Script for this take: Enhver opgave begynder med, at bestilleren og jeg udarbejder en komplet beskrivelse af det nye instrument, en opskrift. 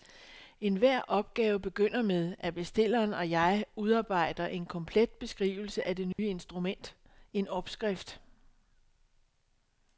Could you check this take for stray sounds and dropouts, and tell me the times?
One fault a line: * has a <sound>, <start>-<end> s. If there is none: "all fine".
* has a dropout, 6.1-6.2 s